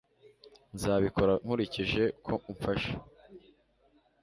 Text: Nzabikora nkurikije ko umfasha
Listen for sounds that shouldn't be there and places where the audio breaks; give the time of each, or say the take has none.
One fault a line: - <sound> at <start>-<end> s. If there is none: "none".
none